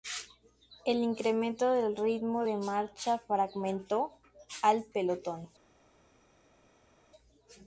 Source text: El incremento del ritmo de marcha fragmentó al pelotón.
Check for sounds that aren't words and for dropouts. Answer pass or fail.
pass